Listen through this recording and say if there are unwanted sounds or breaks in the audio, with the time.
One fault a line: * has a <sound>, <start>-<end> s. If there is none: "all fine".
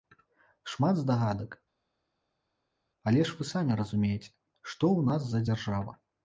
all fine